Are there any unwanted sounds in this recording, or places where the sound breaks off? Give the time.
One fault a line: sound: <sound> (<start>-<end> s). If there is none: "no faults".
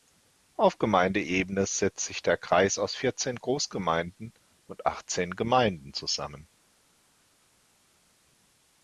no faults